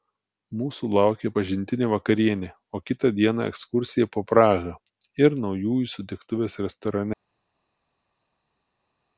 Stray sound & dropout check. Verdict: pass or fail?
pass